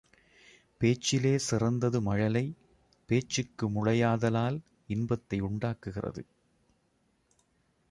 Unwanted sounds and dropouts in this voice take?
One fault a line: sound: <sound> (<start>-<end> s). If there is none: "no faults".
no faults